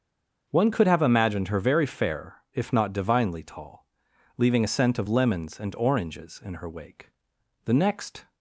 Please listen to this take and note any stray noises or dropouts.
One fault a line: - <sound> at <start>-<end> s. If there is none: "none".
none